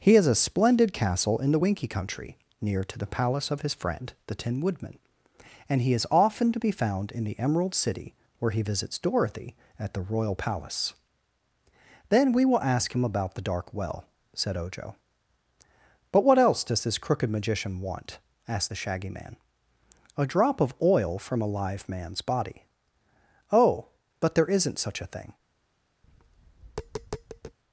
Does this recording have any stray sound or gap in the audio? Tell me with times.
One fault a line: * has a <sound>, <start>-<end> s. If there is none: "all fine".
* has a tap, 26.0-27.6 s